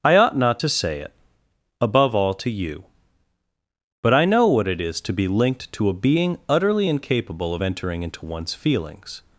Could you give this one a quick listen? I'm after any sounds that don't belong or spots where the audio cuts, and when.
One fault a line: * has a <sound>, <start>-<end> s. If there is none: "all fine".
all fine